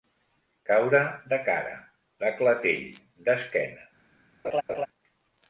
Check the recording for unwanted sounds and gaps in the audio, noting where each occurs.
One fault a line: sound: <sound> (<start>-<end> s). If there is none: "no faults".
sound: laugh (4.4-4.9 s)